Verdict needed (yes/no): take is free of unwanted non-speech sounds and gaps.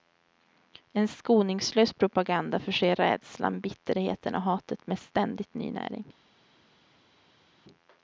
yes